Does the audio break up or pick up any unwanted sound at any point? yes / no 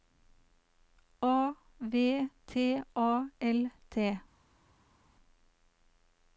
no